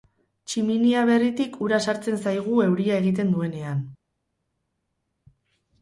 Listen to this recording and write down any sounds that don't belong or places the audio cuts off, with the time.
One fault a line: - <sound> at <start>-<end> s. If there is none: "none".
none